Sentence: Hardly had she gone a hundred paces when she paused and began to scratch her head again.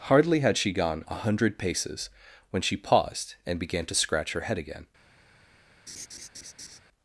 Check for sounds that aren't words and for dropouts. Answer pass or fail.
fail